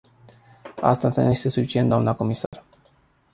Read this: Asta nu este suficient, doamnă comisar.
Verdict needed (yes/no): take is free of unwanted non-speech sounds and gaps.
no